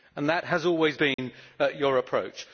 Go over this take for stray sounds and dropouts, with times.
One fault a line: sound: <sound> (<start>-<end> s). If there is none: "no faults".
sound: dropout (1.1-1.2 s)